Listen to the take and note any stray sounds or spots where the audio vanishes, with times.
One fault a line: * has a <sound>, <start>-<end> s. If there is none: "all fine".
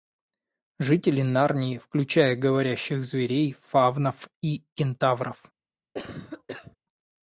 * has a cough, 5.9-6.8 s